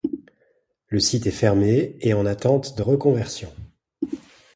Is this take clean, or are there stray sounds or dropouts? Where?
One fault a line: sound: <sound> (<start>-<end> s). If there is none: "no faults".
no faults